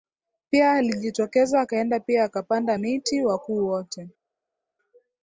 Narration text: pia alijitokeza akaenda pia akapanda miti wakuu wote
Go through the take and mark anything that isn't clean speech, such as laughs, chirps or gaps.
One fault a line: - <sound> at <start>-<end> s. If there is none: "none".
none